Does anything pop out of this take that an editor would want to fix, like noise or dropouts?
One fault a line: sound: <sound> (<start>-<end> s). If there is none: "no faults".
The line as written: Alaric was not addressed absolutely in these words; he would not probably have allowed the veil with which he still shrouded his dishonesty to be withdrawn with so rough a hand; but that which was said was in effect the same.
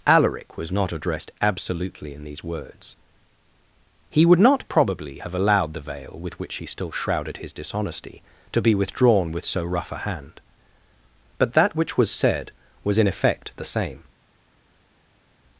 no faults